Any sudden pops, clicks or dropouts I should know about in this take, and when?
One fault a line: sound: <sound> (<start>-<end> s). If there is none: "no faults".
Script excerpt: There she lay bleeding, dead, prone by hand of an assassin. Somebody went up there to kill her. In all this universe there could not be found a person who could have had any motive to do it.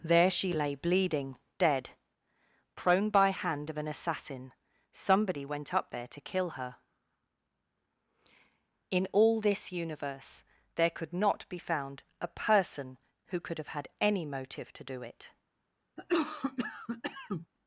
sound: cough (16.0-17.5 s)